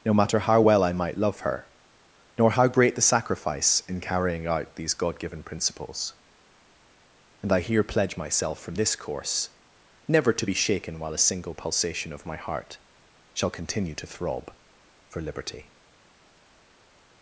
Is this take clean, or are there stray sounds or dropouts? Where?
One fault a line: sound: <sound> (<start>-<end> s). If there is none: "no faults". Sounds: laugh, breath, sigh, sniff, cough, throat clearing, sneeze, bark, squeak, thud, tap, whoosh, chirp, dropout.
no faults